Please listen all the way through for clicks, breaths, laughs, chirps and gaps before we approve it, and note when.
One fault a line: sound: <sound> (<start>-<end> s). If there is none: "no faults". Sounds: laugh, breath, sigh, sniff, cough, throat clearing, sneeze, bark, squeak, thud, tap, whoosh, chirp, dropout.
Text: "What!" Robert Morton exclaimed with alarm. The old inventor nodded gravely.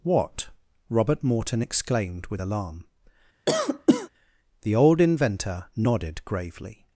sound: cough (3.5-4.1 s)